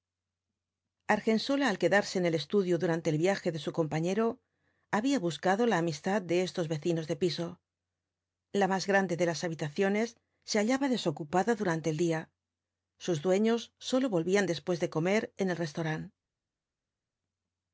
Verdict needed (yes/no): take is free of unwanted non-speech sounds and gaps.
yes